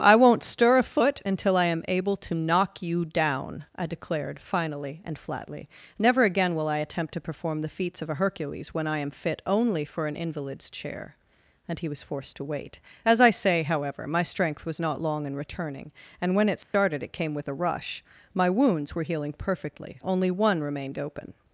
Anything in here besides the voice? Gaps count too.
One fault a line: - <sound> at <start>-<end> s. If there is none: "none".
- dropout at 16.6-16.7 s